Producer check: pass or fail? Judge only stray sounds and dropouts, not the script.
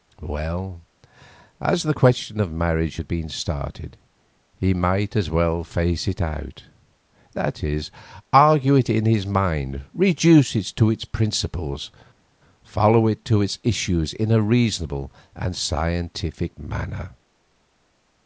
pass